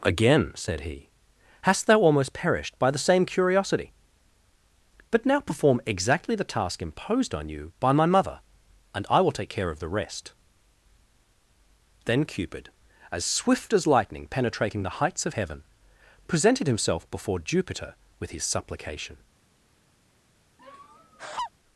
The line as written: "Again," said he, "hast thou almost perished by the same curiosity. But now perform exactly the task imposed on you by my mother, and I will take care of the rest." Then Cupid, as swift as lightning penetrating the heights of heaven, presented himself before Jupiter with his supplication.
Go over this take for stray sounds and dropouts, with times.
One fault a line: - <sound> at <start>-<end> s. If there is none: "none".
- laugh at 20.6-21.5 s